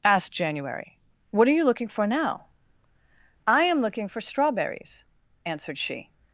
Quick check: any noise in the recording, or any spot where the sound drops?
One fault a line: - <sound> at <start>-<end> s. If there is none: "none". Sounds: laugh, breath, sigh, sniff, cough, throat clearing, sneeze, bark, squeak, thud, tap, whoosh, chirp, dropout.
none